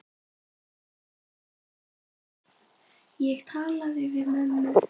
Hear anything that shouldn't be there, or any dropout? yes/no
no